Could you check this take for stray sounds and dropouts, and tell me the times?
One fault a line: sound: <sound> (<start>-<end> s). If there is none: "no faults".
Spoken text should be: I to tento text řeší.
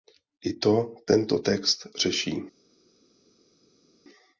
no faults